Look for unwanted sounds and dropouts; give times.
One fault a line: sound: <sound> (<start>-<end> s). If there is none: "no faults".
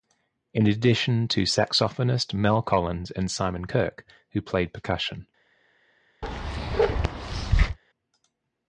sound: bark (6.2-7.8 s)